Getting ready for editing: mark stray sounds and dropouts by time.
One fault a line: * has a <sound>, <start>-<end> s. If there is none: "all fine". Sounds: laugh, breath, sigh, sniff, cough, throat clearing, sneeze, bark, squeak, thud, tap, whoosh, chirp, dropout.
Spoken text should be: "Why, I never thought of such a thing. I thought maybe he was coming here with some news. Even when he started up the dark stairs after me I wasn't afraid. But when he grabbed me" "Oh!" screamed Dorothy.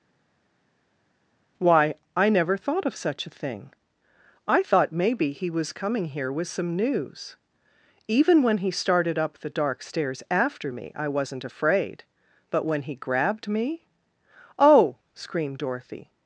all fine